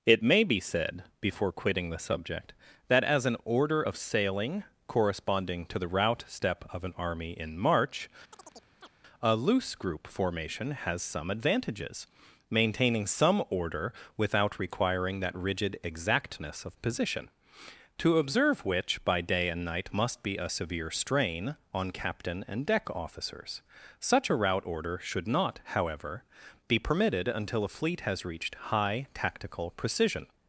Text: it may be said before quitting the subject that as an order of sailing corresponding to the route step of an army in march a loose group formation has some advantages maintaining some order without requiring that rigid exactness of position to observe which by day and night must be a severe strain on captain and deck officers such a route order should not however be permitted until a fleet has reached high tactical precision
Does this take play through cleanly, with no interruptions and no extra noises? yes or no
no